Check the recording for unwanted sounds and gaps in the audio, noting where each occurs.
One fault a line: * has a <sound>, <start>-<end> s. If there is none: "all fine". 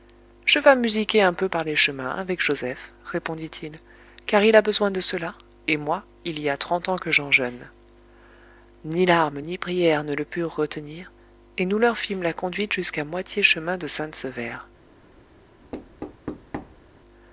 * has a thud, 15.7-16.8 s